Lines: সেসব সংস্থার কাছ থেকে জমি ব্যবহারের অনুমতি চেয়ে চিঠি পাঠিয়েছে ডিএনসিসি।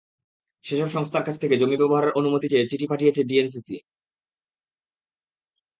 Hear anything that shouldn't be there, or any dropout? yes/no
no